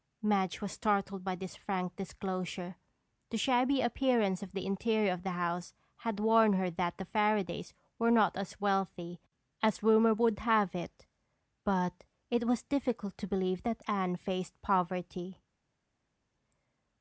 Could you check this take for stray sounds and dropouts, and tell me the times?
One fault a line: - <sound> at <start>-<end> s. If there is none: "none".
none